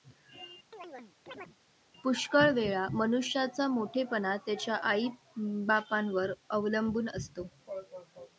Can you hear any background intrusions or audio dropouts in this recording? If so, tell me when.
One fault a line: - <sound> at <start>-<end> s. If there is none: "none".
- chirp at 0.7-1.6 s